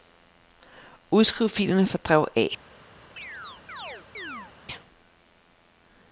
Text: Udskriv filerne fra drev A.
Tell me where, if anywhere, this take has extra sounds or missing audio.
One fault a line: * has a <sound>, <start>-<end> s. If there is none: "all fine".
* has a chirp, 3.2-4.5 s